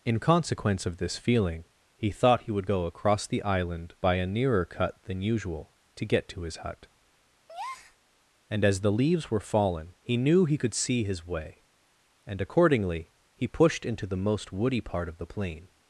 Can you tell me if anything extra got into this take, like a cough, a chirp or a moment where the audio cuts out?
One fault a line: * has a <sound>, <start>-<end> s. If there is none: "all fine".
* has a breath, 7.5-8.0 s